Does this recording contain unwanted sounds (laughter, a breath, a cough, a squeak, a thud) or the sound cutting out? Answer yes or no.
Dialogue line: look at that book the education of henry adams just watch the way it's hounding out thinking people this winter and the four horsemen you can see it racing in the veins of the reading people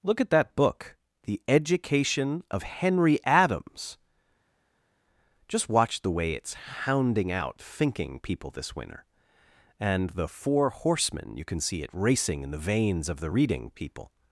no